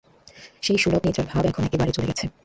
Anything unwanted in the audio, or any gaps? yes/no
no